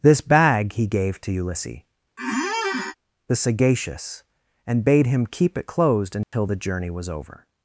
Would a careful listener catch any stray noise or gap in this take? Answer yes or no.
yes